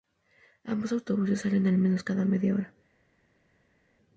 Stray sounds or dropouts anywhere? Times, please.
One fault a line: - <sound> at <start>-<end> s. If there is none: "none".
none